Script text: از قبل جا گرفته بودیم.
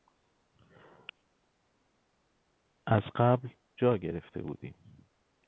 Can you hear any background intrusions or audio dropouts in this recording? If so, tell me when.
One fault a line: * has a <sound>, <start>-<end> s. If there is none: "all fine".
all fine